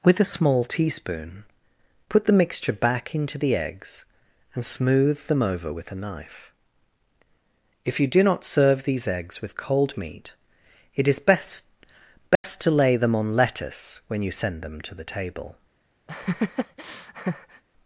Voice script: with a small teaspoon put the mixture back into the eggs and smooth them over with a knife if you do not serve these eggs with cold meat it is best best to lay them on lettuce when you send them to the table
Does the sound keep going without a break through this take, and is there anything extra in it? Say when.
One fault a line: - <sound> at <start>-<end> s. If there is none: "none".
- dropout at 12.4-12.4 s
- laugh at 16.1-17.6 s